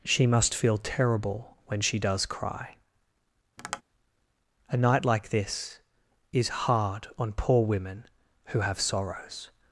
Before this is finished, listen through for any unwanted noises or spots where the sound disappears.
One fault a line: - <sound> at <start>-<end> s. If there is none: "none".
- tap at 3.6-3.8 s